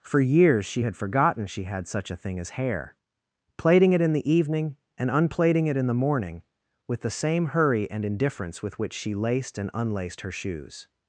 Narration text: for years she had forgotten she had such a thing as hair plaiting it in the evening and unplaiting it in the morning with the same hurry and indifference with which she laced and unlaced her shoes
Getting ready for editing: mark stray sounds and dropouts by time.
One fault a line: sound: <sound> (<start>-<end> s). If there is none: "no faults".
no faults